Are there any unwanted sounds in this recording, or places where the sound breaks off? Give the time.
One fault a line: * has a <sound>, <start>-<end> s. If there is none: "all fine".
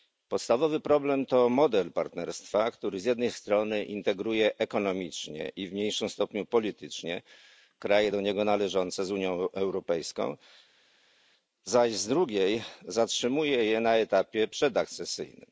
all fine